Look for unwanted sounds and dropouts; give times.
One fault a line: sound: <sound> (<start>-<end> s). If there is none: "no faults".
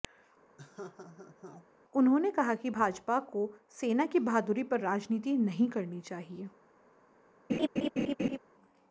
sound: laugh (0.6-1.7 s)
sound: laugh (7.5-8.4 s)